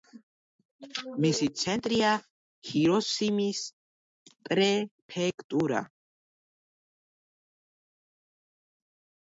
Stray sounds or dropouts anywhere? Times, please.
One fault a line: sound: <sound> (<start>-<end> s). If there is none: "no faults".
no faults